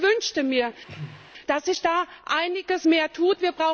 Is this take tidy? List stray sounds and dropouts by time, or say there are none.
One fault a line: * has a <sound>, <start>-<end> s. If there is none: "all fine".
* has a throat clearing, 0.9-1.3 s